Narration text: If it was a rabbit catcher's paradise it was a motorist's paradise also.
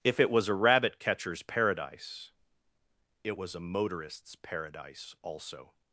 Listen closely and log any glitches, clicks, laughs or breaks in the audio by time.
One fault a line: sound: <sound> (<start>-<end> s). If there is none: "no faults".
no faults